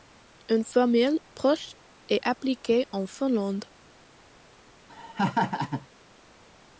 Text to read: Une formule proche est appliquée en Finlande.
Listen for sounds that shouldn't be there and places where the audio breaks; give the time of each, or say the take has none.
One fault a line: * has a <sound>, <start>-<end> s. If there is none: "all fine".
* has a laugh, 4.9-5.9 s